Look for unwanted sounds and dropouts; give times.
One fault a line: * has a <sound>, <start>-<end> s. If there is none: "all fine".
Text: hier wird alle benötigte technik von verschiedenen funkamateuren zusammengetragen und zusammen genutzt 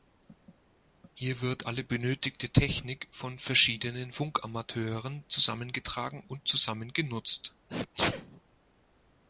* has a sneeze, 7.7-8.4 s